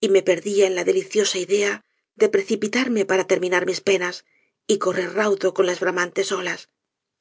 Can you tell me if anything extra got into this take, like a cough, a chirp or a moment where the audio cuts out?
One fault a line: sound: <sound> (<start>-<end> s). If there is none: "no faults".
no faults